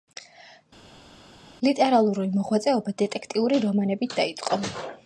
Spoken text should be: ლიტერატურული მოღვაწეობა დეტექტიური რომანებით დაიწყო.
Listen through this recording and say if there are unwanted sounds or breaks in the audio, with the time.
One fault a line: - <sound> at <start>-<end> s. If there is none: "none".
none